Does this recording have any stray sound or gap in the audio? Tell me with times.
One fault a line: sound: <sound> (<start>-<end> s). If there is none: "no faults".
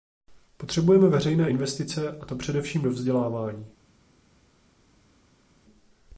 no faults